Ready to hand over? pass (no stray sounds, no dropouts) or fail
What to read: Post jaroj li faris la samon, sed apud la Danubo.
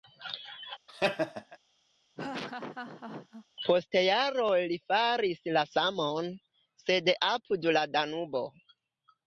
fail